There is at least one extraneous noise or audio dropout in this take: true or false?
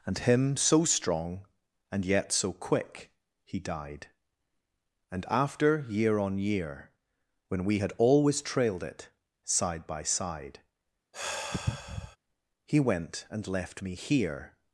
true